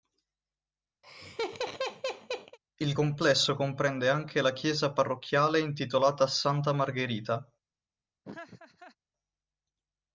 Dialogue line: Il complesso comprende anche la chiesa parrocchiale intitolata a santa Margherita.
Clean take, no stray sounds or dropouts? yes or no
no